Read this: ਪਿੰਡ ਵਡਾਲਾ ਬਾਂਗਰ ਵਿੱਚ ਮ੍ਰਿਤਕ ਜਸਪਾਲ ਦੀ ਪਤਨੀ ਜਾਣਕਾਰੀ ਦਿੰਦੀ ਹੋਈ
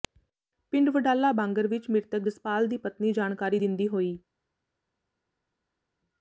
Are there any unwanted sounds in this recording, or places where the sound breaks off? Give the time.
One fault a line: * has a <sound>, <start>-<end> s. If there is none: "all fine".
all fine